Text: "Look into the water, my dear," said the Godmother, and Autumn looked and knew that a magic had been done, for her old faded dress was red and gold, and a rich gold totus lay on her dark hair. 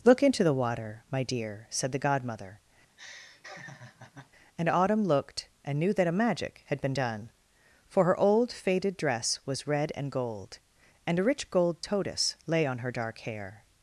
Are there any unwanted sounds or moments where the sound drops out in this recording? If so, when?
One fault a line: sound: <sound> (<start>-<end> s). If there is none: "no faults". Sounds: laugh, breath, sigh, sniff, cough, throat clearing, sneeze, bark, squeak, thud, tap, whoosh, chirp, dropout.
sound: laugh (2.9-4.3 s)